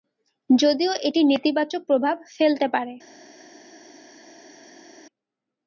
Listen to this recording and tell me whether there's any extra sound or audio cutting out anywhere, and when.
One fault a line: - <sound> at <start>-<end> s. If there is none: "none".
none